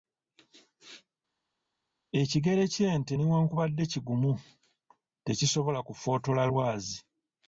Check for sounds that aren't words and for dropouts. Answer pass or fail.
pass